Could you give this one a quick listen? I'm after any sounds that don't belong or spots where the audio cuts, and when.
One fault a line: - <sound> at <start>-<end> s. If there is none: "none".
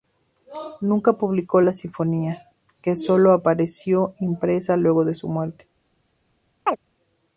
- chirp at 6.7-6.8 s